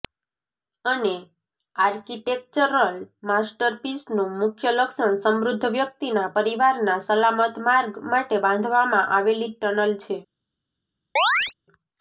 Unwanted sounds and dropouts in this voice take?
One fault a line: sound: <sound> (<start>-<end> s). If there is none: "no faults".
sound: chirp (11.2-11.5 s)